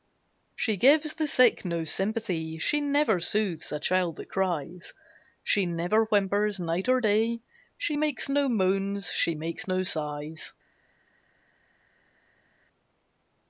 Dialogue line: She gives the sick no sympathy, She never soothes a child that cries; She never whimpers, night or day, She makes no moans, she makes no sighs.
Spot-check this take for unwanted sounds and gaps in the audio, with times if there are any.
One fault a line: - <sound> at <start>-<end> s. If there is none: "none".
none